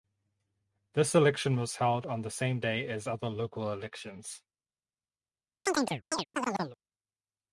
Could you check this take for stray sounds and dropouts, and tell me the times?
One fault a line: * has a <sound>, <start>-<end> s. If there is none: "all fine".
* has a chirp, 5.7-6.8 s